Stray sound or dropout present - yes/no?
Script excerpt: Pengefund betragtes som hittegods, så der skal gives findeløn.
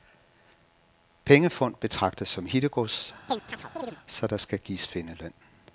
yes